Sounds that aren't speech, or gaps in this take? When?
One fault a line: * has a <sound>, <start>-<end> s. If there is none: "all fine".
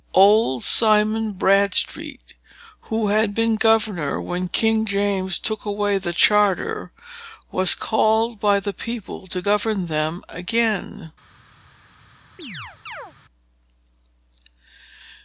* has a chirp, 12.4-13.1 s